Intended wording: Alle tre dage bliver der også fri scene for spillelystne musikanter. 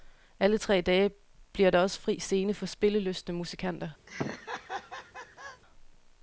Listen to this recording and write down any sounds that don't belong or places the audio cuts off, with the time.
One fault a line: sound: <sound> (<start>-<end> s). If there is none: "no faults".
sound: laugh (4.1-5.6 s)